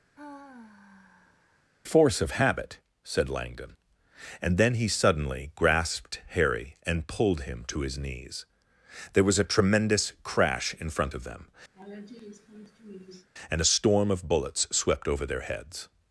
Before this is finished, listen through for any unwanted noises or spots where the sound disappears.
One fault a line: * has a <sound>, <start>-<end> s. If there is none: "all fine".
* has a sigh, 0.1-1.7 s
* has a laugh, 11.7-13.3 s